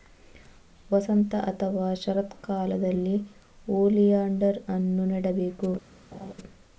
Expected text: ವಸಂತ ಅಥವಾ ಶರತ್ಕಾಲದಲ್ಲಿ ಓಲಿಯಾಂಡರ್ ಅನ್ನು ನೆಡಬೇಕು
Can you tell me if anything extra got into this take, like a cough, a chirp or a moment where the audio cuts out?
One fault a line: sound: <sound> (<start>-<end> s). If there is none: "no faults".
sound: laugh (6.1-6.3 s)